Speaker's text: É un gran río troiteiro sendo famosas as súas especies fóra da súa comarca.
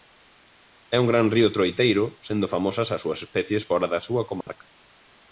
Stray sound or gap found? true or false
true